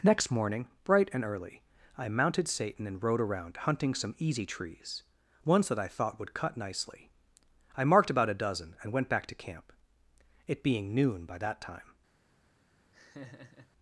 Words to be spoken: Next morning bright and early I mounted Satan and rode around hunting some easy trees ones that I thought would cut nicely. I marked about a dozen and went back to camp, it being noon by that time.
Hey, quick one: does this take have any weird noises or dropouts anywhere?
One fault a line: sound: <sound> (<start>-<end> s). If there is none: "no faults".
sound: laugh (12.9-13.7 s)